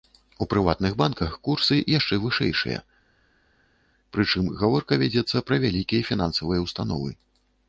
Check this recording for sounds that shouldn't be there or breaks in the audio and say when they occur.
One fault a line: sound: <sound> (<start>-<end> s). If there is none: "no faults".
no faults